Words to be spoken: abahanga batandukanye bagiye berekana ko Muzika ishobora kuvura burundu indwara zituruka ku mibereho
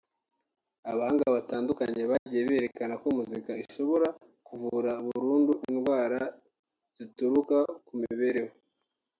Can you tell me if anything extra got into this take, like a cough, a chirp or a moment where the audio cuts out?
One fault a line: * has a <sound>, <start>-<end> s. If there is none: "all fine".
* has a dropout, 2.2-2.3 s